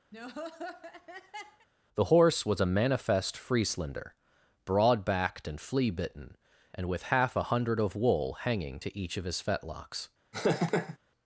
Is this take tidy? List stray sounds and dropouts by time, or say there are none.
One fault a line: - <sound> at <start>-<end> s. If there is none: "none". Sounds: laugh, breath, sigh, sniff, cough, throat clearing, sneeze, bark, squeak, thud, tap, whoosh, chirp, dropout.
- laugh at 0.1-1.7 s
- laugh at 10.3-11.0 s